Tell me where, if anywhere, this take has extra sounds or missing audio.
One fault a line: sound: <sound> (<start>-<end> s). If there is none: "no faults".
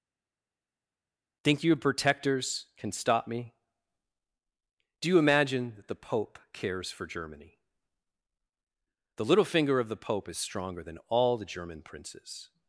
no faults